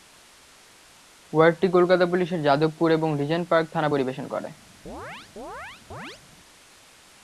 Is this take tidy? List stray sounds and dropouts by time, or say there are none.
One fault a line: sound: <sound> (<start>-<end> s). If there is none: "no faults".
sound: chirp (4.9-6.2 s)